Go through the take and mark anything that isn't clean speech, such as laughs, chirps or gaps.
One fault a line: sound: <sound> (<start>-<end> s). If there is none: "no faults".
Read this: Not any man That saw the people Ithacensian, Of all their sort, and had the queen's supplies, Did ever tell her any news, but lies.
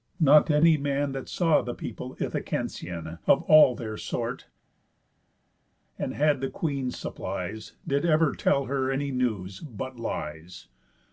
no faults